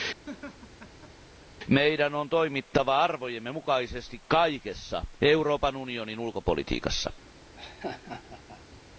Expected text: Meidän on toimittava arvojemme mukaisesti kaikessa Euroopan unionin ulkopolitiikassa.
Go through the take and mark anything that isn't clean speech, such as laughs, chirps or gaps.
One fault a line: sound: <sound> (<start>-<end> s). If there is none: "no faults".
sound: laugh (0.3-1.5 s)
sound: laugh (7.5-8.8 s)